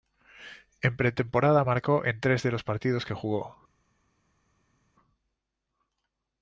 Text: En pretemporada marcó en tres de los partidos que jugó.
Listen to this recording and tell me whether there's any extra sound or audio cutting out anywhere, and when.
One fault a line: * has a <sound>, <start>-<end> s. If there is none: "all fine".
all fine